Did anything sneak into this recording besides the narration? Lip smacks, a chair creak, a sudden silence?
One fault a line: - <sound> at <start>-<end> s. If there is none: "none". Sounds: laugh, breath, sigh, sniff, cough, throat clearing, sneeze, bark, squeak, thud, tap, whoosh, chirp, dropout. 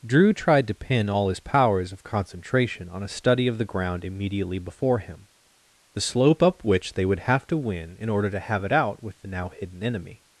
none